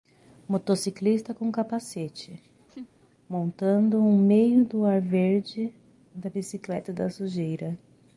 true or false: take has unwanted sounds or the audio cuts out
true